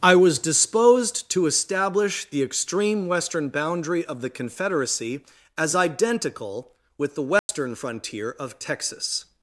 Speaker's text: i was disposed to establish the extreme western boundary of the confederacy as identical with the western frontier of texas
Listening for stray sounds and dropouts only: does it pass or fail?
fail